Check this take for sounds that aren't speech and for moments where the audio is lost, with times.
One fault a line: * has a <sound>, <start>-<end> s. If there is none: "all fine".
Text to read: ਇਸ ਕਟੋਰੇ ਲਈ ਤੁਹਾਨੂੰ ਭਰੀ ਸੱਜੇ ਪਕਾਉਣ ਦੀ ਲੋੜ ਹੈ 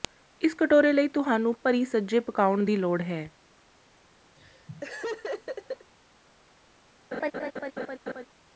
* has a laugh, 4.3-5.9 s
* has a laugh, 7.1-8.3 s